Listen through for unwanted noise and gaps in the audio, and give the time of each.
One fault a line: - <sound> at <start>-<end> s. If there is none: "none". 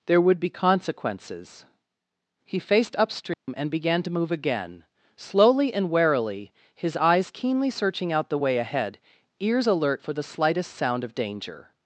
- dropout at 3.3-3.5 s